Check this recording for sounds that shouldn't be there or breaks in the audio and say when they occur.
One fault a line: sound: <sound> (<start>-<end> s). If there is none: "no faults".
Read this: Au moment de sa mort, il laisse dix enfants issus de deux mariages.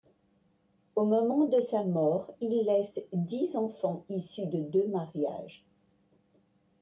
no faults